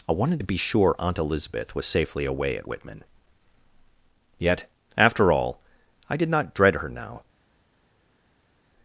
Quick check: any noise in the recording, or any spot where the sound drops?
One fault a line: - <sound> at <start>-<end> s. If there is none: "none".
none